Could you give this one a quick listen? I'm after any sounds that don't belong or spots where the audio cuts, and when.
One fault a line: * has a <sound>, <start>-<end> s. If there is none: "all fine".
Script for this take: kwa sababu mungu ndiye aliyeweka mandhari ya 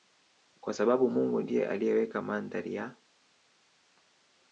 all fine